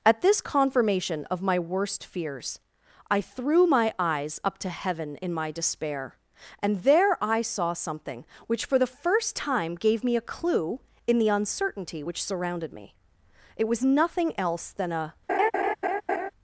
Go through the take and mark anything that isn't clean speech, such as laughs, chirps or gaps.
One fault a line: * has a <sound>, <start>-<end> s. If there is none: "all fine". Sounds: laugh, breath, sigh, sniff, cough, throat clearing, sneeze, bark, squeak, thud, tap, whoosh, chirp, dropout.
* has a laugh, 15.3-16.3 s